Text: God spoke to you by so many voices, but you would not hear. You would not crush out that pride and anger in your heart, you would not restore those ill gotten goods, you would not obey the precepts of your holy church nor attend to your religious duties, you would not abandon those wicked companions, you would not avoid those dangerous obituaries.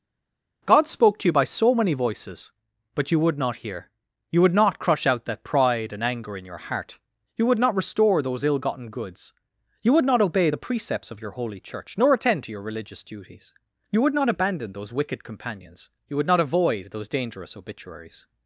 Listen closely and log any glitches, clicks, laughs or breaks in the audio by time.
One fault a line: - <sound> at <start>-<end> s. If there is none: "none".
none